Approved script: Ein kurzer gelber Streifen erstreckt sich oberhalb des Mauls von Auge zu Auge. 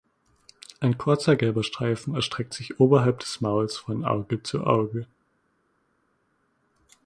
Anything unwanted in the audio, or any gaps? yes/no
no